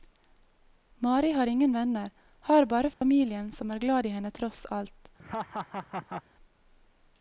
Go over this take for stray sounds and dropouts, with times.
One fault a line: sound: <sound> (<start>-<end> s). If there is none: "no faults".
sound: dropout (2.9-3.0 s)
sound: laugh (5.2-6.2 s)